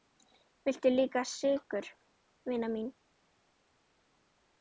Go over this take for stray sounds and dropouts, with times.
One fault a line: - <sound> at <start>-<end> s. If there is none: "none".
none